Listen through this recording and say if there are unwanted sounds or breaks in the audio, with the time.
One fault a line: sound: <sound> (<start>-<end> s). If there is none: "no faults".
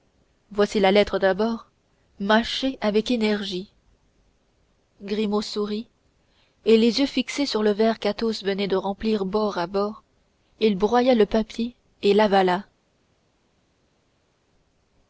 no faults